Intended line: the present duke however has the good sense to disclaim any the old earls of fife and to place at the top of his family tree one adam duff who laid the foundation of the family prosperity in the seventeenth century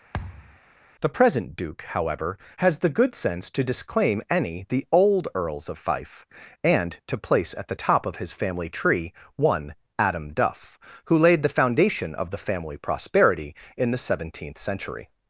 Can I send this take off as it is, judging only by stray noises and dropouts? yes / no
no